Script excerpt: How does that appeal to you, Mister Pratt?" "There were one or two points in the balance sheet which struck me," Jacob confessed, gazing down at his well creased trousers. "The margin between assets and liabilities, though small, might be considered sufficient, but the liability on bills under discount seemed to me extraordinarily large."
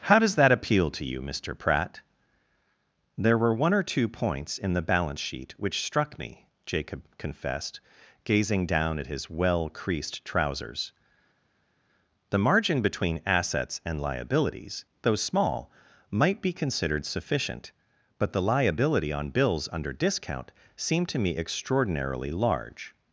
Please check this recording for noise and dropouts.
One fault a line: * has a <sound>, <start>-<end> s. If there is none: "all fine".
all fine